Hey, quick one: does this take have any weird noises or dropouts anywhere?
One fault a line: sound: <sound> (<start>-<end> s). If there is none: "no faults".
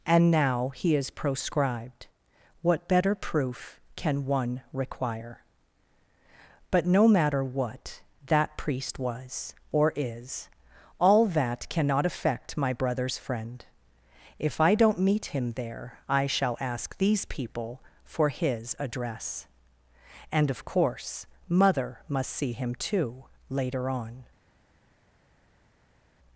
no faults